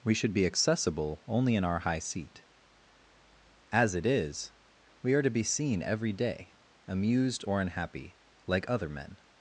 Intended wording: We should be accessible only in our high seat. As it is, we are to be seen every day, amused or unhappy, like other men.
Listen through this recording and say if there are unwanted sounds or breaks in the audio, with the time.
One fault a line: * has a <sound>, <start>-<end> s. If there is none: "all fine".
all fine